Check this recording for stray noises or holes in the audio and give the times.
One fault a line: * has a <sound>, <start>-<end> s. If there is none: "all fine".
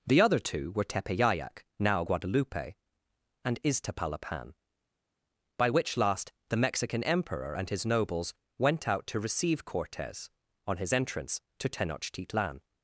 all fine